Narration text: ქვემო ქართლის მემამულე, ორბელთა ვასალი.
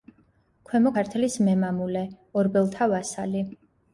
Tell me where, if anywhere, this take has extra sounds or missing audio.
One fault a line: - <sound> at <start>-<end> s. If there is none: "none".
none